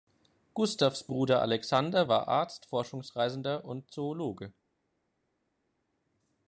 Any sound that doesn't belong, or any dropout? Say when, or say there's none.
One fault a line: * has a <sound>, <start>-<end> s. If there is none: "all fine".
all fine